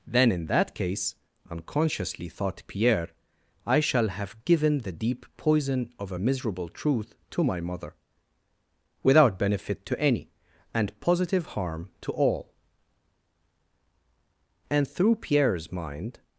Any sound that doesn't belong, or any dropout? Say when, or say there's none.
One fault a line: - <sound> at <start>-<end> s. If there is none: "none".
none